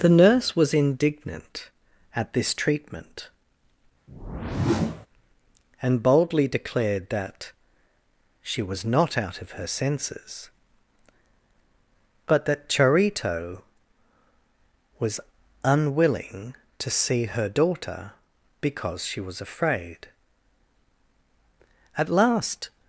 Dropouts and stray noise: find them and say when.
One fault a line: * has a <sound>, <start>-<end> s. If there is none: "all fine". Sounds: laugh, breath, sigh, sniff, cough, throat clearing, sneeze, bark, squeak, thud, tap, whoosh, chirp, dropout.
* has a whoosh, 4.1-5.1 s